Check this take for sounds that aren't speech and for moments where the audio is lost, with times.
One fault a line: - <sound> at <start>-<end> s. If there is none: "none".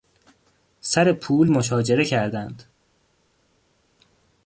none